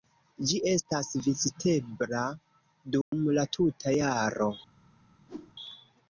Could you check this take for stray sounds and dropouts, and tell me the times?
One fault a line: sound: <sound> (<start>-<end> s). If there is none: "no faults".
sound: dropout (3.0-3.1 s)
sound: whoosh (5.3-5.5 s)